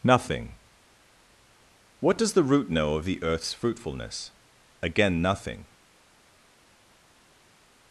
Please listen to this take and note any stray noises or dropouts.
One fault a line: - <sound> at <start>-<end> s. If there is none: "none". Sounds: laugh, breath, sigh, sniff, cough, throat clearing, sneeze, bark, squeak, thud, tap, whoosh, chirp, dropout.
none